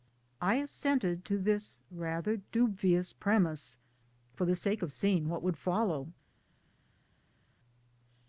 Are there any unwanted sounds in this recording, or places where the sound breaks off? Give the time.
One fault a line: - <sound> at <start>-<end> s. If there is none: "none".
none